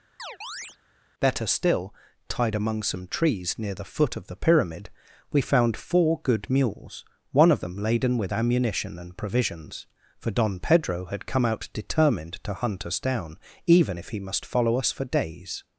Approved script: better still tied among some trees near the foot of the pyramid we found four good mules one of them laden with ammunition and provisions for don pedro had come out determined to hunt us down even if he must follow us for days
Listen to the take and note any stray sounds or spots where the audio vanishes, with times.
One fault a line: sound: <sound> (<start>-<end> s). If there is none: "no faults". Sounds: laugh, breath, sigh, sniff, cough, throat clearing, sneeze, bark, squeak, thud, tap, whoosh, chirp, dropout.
sound: chirp (0.2-0.8 s)